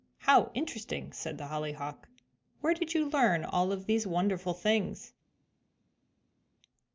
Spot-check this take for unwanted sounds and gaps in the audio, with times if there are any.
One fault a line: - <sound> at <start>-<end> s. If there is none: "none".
none